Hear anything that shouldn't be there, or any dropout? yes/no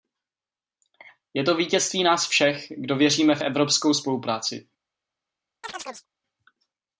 yes